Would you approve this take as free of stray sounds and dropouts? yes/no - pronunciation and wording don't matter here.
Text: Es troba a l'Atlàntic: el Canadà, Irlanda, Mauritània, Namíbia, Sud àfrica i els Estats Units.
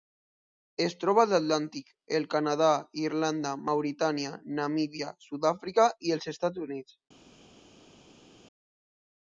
yes